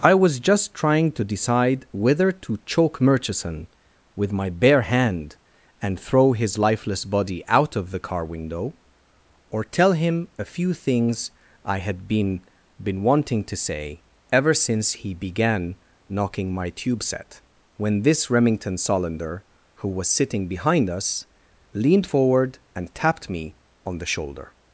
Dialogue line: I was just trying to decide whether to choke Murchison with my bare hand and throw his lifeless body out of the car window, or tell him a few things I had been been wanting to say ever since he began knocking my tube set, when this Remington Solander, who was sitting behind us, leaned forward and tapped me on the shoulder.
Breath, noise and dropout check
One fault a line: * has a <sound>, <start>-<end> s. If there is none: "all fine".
all fine